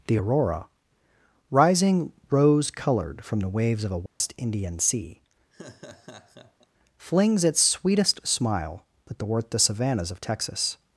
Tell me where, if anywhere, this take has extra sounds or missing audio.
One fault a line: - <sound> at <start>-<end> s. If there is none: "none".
- dropout at 4.1-4.2 s
- laugh at 5.5-6.7 s